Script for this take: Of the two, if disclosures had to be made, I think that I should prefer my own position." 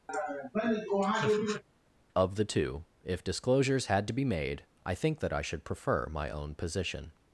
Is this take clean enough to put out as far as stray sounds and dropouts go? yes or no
no